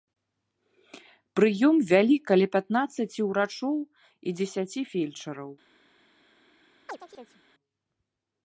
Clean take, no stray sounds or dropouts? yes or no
no